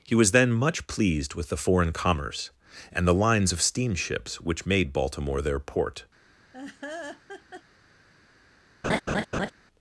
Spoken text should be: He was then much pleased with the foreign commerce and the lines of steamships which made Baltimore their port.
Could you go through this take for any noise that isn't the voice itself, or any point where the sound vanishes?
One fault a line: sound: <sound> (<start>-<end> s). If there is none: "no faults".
sound: laugh (6.5-7.6 s)
sound: laugh (8.8-9.5 s)